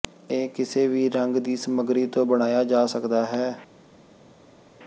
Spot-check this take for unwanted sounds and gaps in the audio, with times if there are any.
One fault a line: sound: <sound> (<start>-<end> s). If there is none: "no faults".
no faults